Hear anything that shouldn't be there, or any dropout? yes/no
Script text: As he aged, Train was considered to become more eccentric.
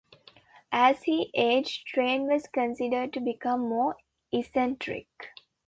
no